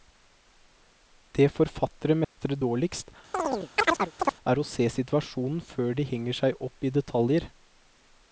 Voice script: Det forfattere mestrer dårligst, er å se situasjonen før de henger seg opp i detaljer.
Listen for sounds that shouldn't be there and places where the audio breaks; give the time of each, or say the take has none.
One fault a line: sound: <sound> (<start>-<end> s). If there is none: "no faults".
sound: dropout (2.2-2.4 s)
sound: chirp (3.3-4.4 s)